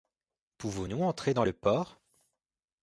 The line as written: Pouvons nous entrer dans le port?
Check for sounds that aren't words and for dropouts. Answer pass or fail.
pass